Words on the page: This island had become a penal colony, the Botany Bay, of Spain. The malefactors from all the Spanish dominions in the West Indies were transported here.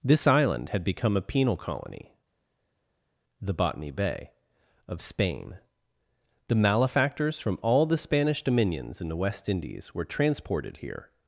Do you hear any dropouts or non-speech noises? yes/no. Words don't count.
no